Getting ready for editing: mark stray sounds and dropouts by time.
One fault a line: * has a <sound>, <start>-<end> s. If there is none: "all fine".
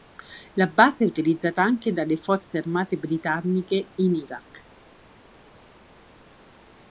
all fine